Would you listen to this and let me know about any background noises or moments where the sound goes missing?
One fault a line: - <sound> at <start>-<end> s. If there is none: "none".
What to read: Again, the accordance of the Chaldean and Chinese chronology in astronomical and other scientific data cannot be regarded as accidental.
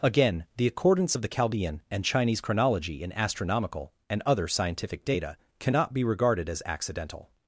none